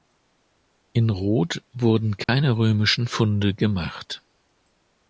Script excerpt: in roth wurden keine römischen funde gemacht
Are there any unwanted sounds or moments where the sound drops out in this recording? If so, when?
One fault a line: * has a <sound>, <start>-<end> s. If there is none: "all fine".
* has a dropout, 2.2-2.3 s